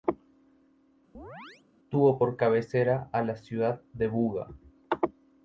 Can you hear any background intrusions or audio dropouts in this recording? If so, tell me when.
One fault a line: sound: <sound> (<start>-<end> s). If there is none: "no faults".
sound: chirp (1.1-1.6 s)